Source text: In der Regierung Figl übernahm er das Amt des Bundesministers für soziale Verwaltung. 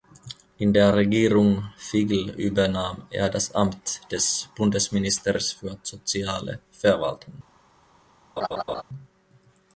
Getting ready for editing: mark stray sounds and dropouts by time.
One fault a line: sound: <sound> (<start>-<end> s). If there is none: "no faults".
sound: laugh (8.4-8.8 s)